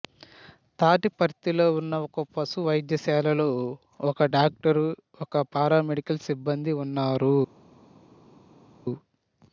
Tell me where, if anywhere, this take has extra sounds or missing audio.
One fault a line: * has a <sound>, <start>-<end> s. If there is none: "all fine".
all fine